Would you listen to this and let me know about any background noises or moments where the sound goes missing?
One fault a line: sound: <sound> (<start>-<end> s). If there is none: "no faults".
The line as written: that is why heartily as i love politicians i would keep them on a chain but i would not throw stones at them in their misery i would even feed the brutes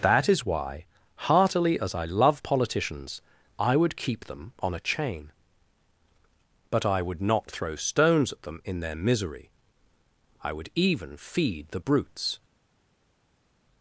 no faults